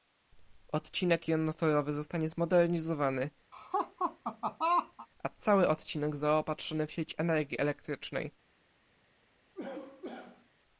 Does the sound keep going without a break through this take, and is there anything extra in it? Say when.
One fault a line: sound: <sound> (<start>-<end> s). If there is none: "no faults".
sound: laugh (3.5-5.1 s)
sound: cough (9.5-10.5 s)